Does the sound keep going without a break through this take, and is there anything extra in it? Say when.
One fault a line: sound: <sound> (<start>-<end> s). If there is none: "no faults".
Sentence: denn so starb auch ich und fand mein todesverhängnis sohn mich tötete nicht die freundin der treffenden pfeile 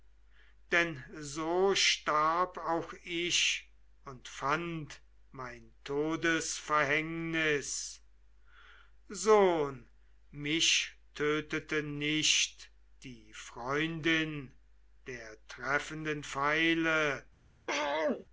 sound: throat clearing (17.7-18.3 s)